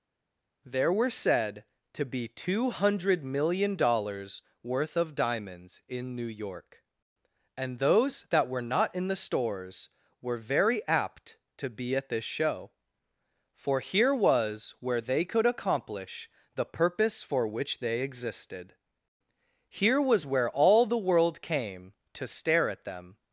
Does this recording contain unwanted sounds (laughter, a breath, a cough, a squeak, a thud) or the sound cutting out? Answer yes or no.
no